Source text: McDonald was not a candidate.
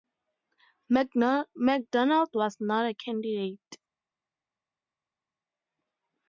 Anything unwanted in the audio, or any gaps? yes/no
no